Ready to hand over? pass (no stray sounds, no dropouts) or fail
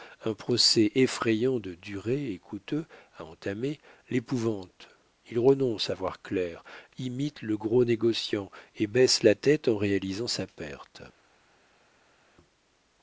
pass